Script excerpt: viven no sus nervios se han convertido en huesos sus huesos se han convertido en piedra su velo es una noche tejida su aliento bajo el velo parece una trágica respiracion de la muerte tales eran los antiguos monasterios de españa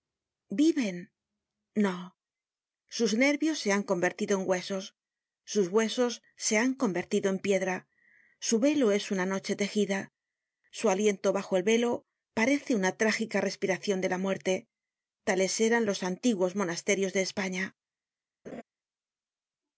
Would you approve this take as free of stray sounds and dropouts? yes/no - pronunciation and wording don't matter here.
no